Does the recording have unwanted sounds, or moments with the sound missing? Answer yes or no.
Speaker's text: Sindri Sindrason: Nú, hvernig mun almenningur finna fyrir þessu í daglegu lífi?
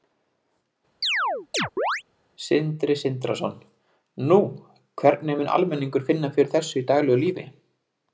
yes